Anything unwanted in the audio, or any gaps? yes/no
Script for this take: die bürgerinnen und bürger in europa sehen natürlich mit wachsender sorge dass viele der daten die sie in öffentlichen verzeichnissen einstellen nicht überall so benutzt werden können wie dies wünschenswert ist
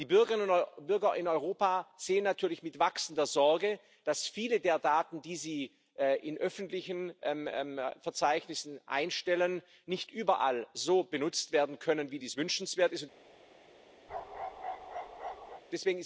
yes